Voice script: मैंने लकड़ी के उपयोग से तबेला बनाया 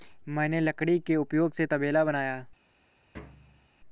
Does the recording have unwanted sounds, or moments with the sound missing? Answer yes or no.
yes